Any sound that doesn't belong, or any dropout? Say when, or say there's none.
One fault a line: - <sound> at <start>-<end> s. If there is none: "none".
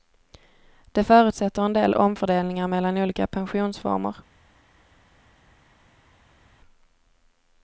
none